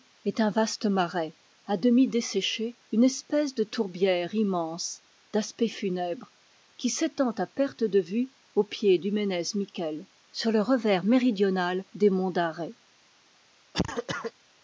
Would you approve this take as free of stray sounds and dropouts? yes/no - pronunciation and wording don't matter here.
no